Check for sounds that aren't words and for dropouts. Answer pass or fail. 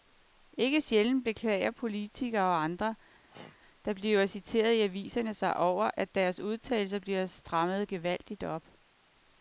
fail